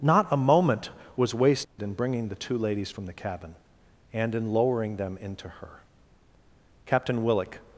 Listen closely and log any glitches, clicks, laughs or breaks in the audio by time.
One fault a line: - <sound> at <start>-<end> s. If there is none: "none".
- dropout at 1.6-1.8 s